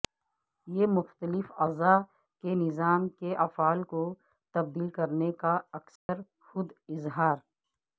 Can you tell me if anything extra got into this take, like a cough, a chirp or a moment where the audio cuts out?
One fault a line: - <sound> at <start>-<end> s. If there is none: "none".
- dropout at 6.0-6.1 s